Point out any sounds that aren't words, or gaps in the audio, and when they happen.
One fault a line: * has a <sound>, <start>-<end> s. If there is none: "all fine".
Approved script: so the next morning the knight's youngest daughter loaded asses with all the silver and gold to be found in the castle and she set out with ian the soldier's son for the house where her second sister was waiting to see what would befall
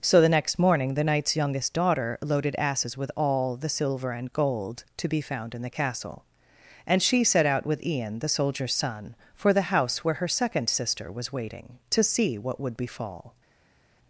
all fine